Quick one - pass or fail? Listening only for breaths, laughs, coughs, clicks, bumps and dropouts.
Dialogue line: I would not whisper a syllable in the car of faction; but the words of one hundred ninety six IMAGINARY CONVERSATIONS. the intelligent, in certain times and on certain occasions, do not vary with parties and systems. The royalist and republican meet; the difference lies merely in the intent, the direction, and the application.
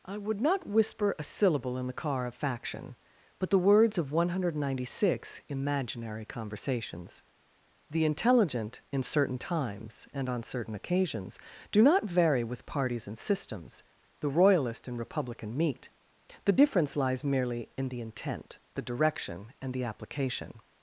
pass